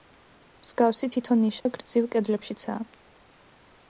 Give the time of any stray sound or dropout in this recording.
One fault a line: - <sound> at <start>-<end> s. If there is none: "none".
- dropout at 1.6-1.7 s